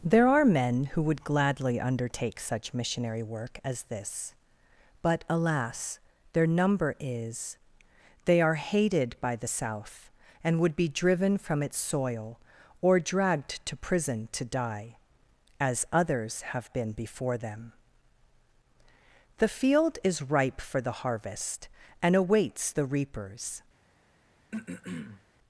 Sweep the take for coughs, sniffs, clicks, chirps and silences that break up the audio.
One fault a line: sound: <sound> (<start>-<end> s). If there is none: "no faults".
sound: throat clearing (24.5-25.2 s)